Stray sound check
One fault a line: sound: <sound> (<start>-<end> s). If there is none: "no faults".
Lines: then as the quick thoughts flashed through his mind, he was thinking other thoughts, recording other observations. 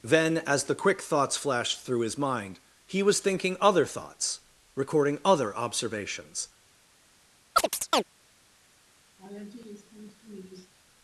sound: chirp (7.6-8.0 s)
sound: laugh (9.2-10.7 s)